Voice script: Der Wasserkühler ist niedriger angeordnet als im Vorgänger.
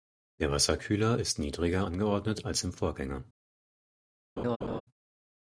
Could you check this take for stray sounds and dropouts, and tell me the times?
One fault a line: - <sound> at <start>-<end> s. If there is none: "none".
- laugh at 4.4-4.8 s